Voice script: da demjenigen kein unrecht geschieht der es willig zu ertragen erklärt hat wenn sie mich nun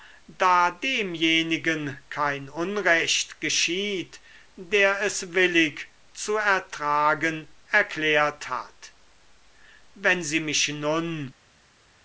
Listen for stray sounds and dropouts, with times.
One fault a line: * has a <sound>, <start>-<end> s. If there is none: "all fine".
all fine